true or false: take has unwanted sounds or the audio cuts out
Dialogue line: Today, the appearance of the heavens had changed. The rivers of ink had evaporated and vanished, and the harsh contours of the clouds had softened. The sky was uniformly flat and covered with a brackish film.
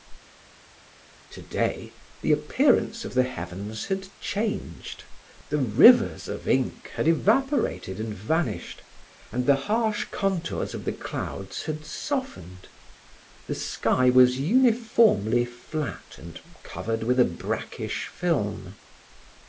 false